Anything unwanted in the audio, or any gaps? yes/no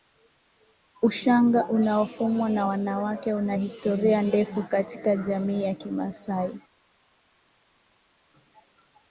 no